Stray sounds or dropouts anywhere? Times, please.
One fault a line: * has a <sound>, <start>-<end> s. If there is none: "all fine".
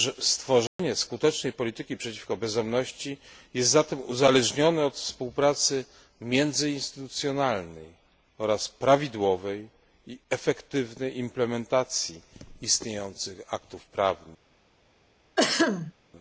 * has a dropout, 0.7-0.8 s
* has a throat clearing, 15.4-15.9 s